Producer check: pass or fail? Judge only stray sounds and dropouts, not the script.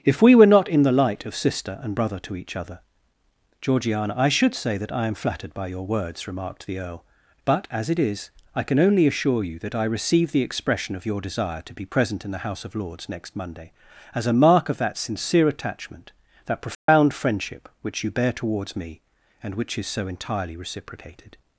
fail